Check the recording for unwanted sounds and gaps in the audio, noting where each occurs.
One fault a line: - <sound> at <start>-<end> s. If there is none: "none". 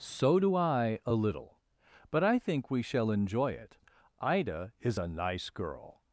none